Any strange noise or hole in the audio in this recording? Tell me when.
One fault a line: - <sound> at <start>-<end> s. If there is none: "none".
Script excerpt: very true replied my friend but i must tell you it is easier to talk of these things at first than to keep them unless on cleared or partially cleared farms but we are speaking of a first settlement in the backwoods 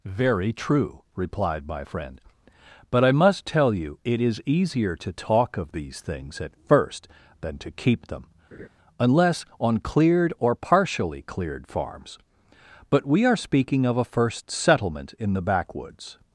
- laugh at 8.5-8.7 s